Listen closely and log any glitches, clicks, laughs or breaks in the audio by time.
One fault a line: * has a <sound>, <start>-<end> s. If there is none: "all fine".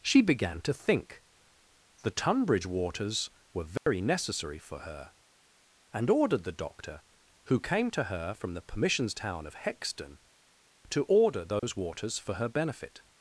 * has a dropout, 3.8-3.9 s
* has a dropout, 11.6-11.6 s